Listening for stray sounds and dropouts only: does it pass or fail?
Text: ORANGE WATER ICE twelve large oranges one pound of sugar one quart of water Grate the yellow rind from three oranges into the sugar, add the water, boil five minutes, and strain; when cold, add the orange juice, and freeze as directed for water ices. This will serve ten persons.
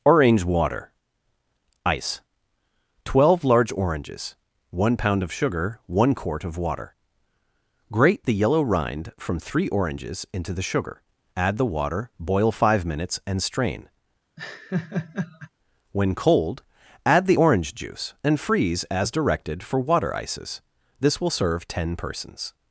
fail